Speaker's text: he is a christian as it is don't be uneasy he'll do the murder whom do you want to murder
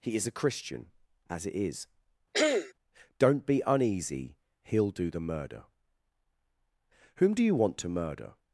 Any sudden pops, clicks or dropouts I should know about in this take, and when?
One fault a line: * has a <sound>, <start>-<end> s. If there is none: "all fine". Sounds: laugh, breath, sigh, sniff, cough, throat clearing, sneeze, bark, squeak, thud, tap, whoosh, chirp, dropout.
* has a throat clearing, 2.3-2.7 s